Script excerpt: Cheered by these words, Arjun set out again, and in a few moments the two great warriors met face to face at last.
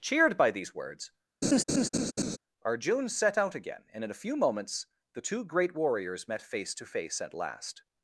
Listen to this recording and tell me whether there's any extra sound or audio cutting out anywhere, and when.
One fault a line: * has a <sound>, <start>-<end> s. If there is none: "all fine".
* has a laugh, 1.4-2.4 s